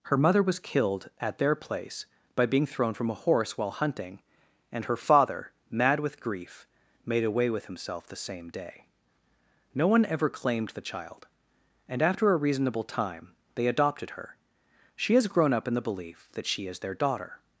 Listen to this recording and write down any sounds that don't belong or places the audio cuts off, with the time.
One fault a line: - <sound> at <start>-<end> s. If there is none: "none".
none